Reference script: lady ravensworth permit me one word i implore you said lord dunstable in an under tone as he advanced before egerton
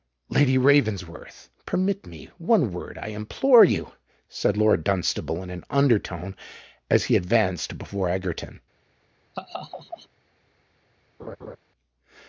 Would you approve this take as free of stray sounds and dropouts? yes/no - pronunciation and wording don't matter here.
no